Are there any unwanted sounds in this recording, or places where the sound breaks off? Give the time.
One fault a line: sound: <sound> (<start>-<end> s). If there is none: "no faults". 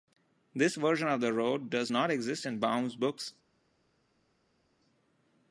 no faults